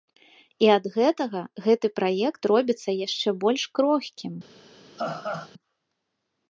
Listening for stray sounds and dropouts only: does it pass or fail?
fail